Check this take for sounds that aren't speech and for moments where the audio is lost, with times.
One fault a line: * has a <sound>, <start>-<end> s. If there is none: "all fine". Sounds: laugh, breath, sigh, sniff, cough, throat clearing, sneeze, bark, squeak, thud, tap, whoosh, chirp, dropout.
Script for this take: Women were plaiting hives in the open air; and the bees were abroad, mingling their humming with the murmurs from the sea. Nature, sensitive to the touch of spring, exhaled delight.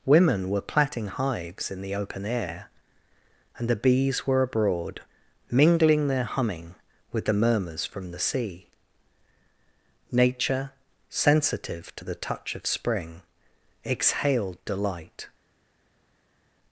all fine